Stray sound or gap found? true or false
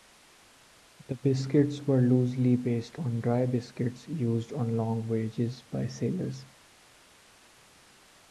false